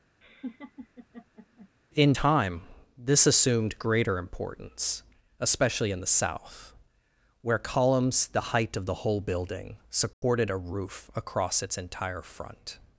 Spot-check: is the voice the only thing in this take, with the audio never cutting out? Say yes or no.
no